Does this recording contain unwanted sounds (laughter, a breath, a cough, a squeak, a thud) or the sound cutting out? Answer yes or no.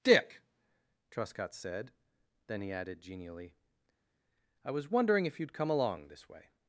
no